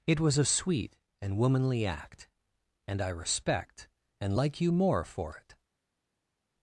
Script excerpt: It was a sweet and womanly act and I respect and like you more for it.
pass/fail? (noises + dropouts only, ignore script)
pass